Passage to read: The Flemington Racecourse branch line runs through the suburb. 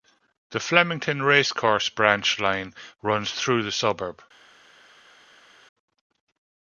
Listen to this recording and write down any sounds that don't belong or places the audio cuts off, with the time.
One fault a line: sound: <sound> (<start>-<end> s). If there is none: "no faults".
no faults